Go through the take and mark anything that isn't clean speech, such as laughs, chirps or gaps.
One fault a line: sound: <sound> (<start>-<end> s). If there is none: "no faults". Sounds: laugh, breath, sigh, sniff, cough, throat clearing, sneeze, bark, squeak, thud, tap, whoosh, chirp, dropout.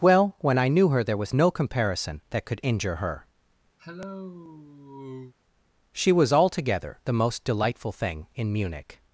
sound: cough (3.8-5.3 s)